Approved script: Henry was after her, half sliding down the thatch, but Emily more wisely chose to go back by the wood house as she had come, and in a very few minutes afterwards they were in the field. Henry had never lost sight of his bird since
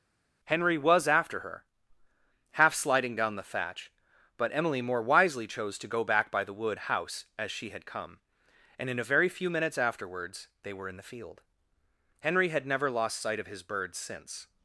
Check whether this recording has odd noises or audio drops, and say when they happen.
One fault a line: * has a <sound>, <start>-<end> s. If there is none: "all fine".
all fine